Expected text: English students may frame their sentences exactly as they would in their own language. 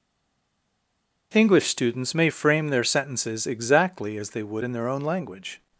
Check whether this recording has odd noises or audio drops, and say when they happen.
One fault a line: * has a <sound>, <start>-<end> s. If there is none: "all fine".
all fine